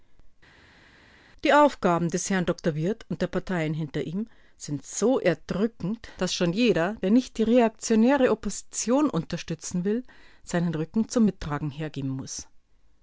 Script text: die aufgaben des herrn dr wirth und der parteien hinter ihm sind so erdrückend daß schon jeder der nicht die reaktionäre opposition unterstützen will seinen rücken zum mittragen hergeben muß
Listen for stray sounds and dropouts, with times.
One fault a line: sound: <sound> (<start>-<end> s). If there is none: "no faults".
no faults